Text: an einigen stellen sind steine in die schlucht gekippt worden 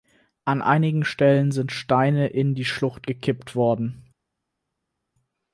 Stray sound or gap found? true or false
false